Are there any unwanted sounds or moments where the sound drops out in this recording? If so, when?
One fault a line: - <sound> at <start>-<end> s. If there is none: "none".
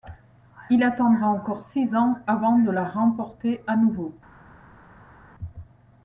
none